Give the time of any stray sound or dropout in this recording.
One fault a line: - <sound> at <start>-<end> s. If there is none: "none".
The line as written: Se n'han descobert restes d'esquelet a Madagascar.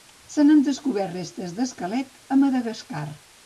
none